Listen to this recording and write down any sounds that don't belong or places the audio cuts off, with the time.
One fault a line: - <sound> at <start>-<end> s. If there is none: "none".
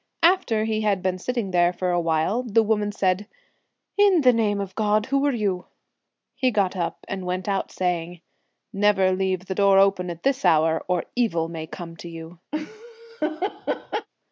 - laugh at 12.5-14.1 s